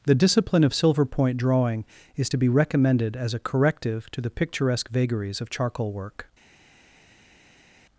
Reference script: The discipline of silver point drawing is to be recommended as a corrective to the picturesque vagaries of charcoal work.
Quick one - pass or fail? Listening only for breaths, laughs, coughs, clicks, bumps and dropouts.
pass